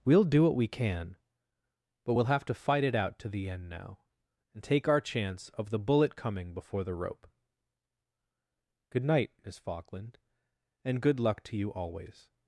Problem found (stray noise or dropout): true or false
false